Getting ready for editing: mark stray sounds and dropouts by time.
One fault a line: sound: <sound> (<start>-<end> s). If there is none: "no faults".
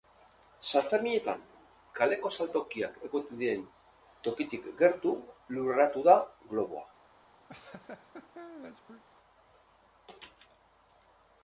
sound: laugh (7.5-9.0 s)